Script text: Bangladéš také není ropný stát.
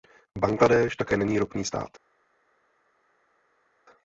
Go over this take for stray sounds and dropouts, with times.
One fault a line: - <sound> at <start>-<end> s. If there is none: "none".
none